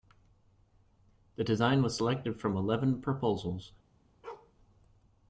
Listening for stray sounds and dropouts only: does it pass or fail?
fail